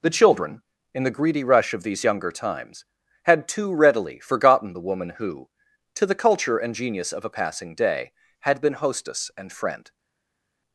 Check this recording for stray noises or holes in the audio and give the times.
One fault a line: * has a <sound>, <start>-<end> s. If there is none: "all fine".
all fine